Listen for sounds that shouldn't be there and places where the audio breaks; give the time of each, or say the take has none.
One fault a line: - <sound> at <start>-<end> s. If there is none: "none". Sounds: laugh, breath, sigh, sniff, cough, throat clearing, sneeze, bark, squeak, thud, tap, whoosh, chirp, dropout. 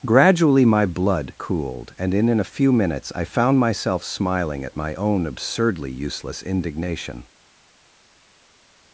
none